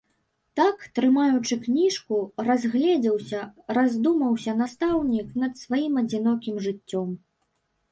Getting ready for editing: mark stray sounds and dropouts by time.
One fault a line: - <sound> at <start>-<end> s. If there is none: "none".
none